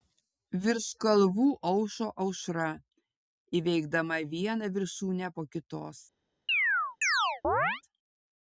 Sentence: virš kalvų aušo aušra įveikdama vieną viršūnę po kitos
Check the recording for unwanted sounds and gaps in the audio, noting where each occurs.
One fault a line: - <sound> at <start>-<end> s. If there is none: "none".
- chirp at 6.5-7.8 s